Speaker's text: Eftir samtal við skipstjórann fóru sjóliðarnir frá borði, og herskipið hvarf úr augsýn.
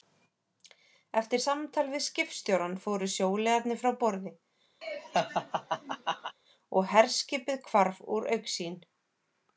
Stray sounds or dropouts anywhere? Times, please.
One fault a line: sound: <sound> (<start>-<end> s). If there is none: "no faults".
sound: laugh (4.8-6.4 s)